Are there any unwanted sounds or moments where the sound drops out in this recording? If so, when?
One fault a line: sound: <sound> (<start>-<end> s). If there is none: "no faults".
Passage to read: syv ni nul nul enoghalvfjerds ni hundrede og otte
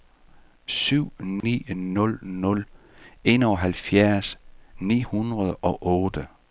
sound: dropout (1.4-1.4 s)